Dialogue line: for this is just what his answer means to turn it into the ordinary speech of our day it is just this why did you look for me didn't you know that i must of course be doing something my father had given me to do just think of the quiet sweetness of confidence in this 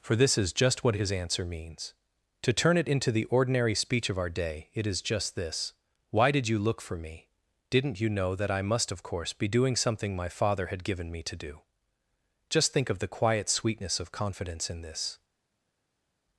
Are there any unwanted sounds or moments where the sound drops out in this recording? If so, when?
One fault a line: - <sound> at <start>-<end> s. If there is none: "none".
none